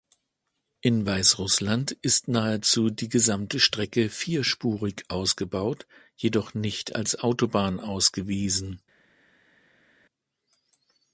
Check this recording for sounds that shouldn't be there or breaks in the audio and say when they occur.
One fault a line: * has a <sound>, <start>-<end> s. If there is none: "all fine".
all fine